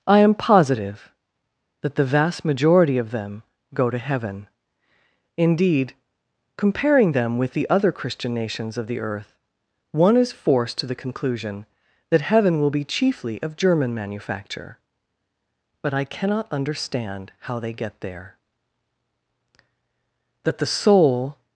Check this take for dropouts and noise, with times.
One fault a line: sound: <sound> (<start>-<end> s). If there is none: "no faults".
no faults